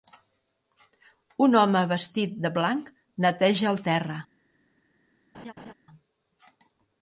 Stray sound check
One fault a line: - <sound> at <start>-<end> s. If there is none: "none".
- laugh at 5.3-5.7 s